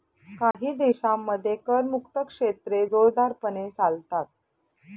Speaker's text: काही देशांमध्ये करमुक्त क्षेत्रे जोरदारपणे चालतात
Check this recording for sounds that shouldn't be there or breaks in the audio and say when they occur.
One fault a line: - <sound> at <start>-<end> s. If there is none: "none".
- dropout at 0.5-0.5 s